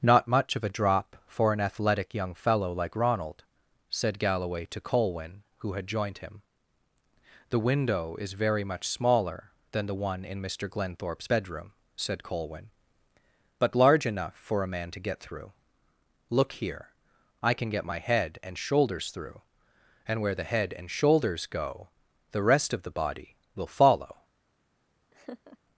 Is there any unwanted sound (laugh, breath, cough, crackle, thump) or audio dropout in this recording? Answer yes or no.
yes